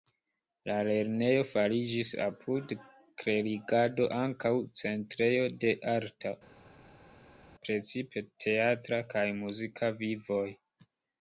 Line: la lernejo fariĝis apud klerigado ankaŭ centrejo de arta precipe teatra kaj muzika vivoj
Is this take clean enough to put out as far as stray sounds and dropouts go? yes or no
yes